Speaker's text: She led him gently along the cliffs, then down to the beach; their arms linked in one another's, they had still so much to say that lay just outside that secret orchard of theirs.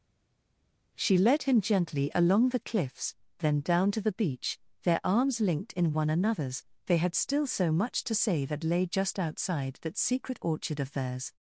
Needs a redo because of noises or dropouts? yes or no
no